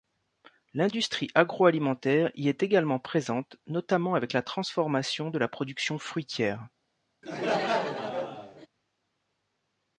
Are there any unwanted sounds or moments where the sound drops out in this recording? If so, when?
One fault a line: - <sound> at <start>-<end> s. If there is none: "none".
- laugh at 7.2-8.7 s